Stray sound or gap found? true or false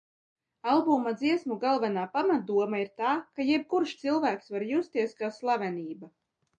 false